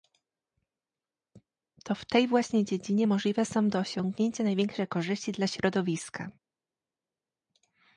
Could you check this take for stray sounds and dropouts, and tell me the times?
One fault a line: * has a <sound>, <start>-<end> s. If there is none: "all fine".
all fine